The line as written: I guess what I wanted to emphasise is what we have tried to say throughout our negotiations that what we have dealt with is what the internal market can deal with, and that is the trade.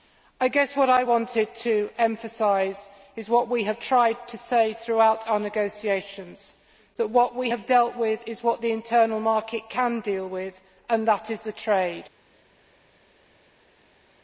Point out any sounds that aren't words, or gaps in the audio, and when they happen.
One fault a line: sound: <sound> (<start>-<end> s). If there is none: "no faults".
no faults